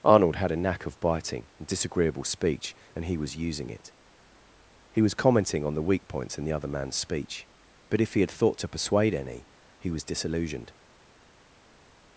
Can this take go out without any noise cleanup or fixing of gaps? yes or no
yes